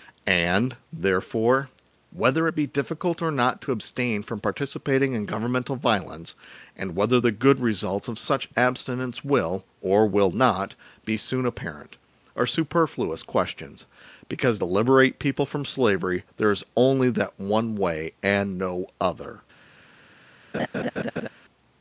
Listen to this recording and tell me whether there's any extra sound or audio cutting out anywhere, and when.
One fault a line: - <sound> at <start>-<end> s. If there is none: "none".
- laugh at 20.5-21.3 s